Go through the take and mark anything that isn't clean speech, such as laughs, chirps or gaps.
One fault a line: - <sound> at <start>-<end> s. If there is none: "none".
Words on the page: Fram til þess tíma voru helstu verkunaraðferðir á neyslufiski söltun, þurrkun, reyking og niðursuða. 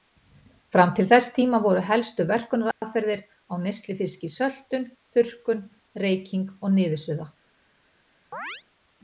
- dropout at 2.7-2.8 s
- chirp at 8.3-8.6 s